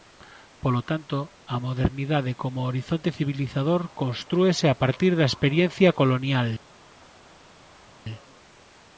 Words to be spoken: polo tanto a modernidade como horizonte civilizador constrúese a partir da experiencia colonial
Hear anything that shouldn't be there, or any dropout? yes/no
no